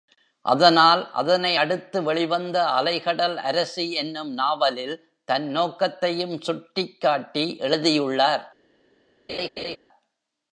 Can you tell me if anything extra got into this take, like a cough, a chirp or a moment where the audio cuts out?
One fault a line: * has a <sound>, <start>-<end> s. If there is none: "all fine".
* has a laugh, 9.3-9.8 s